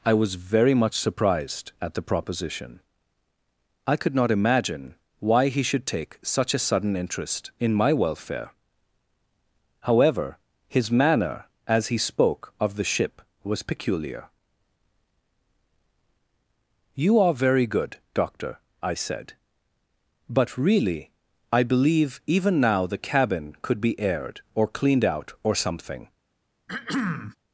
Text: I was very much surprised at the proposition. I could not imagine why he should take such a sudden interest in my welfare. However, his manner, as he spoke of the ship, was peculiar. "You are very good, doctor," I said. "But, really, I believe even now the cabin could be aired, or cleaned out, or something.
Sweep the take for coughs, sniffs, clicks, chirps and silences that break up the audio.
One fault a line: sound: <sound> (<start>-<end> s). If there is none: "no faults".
sound: throat clearing (26.7-27.4 s)